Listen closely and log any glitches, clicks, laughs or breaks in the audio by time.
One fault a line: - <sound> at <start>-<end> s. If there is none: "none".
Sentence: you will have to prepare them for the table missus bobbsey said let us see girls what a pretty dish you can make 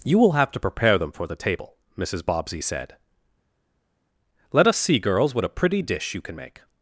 none